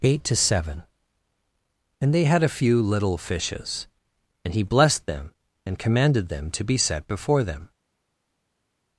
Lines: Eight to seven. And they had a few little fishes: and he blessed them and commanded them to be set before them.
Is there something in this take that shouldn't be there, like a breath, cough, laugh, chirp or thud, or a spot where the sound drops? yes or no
no